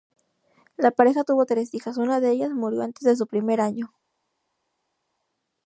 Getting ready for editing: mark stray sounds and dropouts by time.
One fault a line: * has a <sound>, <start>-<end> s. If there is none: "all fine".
all fine